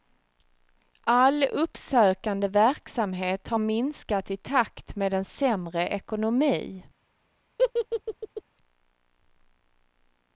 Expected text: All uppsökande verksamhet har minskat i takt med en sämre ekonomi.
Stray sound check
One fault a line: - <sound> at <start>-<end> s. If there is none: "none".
- laugh at 7.6-8.4 s